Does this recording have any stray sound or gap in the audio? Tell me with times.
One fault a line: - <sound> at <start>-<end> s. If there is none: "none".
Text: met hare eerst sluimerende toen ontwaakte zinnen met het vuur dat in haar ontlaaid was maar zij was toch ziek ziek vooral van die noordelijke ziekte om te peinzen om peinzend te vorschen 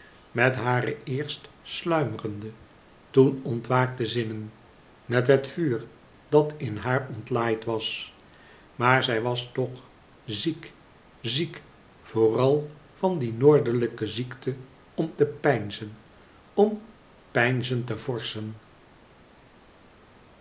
none